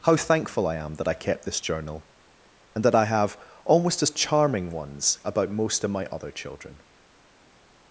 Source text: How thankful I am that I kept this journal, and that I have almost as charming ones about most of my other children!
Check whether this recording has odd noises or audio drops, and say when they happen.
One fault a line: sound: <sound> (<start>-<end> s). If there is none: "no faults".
no faults